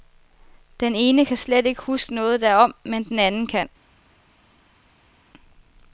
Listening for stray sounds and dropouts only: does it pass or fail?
pass